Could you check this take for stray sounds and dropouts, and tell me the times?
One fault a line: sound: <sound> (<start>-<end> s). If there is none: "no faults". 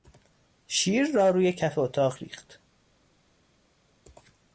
no faults